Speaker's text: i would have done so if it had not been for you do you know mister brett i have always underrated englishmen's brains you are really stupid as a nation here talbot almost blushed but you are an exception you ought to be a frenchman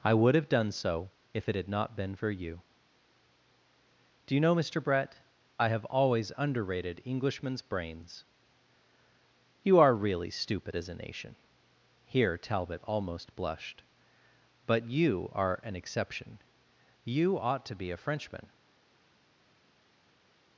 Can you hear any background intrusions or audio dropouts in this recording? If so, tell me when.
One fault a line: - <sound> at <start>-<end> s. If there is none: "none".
none